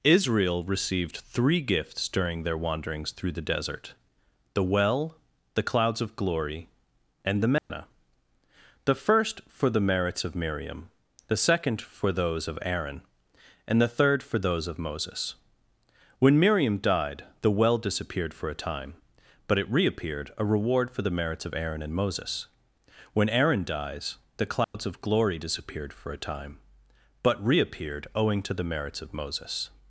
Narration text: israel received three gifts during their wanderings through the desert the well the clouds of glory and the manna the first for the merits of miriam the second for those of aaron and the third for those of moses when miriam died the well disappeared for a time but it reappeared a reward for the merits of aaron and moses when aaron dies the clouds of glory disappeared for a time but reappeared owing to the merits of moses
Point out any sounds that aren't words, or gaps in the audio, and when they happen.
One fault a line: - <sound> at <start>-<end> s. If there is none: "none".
- dropout at 7.6-7.7 s
- dropout at 24.6-24.7 s